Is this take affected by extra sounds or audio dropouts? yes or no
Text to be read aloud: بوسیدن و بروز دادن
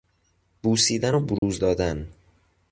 yes